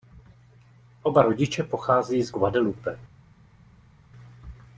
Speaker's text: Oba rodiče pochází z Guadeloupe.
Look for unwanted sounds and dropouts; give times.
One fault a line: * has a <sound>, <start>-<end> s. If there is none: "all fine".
all fine